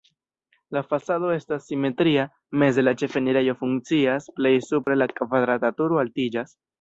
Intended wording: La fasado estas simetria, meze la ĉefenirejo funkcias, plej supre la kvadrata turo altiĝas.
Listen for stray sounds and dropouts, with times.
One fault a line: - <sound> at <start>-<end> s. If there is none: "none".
- dropout at 4.8-4.9 s